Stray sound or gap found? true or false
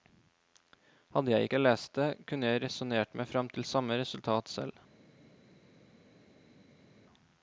false